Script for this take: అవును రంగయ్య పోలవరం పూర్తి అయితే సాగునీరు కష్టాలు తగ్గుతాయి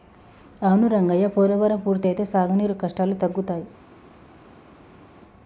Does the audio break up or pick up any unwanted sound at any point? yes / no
no